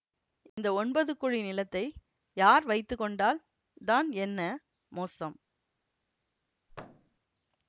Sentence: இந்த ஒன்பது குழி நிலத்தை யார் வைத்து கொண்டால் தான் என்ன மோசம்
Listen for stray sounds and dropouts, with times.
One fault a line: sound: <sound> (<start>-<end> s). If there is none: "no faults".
sound: dropout (0.5-0.6 s)
sound: thud (6.7-7.2 s)